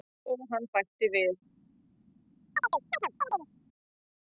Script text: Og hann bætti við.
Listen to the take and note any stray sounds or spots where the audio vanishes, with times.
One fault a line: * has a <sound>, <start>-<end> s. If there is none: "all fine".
* has a chirp, 2.6-3.5 s